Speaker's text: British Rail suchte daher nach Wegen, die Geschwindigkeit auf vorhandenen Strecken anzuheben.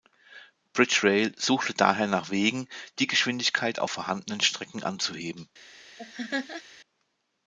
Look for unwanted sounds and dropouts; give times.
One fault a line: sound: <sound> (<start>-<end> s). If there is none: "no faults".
sound: laugh (6.0-6.6 s)